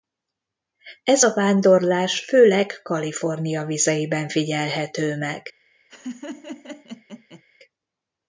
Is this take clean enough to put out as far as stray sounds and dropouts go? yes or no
no